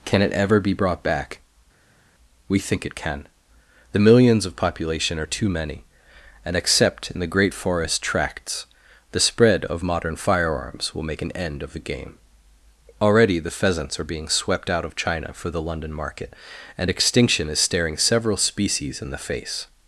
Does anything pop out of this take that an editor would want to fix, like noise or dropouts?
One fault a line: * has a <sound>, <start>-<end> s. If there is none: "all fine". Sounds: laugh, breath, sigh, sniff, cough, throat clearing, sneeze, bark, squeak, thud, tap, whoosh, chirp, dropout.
all fine